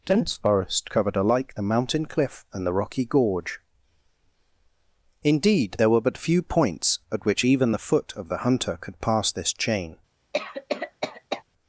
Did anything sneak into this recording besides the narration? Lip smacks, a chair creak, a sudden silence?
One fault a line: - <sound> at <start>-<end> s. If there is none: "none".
- cough at 10.3-11.4 s